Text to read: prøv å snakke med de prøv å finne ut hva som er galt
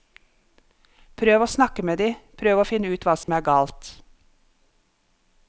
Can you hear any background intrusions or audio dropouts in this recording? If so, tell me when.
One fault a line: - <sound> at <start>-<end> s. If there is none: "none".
- dropout at 3.2-3.3 s